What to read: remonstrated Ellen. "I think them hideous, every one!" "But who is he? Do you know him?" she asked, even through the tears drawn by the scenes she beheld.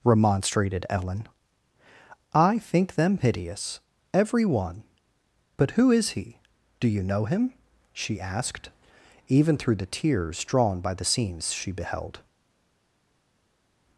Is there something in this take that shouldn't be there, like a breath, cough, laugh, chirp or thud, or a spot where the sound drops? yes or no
no